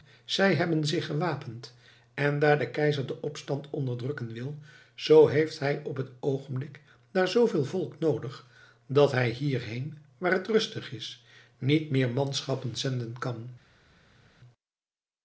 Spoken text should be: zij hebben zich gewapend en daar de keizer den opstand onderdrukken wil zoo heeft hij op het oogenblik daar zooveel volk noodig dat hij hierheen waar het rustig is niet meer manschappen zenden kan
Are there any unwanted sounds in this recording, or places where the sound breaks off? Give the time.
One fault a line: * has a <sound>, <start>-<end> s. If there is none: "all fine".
all fine